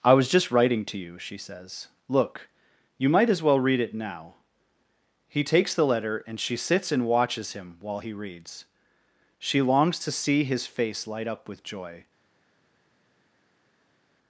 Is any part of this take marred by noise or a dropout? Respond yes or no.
no